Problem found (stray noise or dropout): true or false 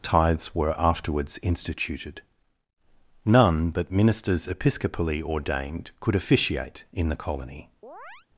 true